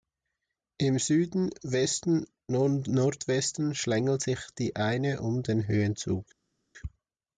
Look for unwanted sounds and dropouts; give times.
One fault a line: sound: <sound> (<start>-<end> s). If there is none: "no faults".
no faults